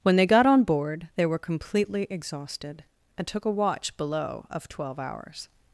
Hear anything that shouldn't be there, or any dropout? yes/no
no